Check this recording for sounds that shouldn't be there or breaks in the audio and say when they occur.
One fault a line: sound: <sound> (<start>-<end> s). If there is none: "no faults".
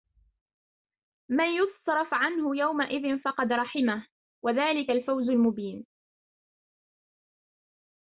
no faults